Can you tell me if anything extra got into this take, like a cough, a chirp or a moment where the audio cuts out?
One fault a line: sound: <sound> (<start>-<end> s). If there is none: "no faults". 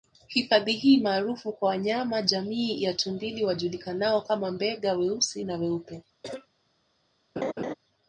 sound: cough (6.2-6.5 s)
sound: laugh (7.4-7.7 s)